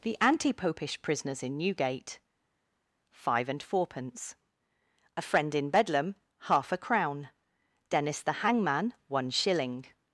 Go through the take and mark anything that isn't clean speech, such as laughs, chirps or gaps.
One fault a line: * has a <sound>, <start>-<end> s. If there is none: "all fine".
all fine